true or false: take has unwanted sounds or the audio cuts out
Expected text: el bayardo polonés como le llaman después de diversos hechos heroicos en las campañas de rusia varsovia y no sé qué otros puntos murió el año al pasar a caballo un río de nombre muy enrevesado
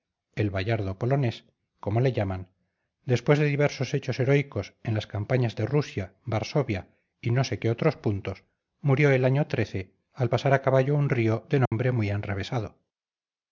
true